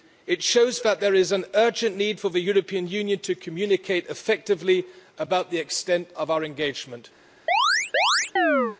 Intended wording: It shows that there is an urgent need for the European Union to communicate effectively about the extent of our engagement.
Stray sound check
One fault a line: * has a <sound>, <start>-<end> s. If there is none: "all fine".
* has a chirp, 7.5-8.8 s